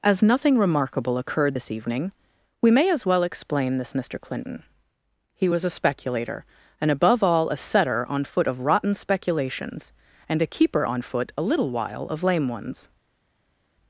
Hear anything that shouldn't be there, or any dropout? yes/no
no